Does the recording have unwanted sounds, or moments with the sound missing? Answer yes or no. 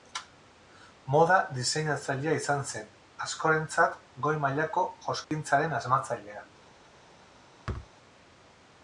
yes